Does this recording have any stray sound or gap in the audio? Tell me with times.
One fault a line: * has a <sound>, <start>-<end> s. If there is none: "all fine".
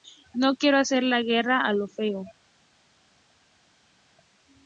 all fine